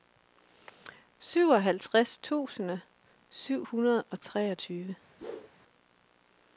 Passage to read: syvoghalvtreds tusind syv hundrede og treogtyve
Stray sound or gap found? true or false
true